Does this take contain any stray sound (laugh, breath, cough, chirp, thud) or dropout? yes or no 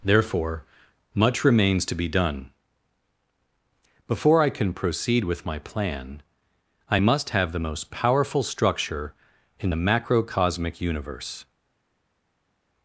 no